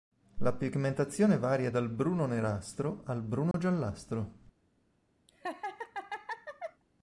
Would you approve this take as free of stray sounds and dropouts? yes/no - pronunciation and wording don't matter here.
no